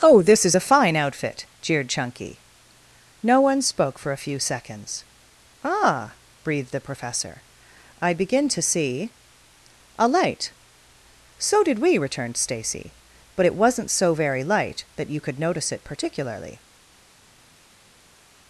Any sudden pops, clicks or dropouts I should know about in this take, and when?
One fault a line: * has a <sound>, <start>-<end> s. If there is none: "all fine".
all fine